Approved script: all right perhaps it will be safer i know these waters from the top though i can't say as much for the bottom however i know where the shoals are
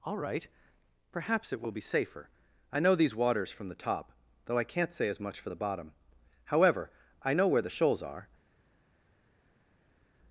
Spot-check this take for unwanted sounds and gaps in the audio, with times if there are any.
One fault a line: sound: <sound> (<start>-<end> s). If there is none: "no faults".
no faults